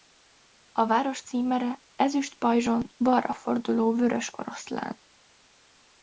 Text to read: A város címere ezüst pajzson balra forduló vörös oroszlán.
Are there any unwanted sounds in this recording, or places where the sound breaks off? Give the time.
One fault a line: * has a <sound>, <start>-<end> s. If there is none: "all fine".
all fine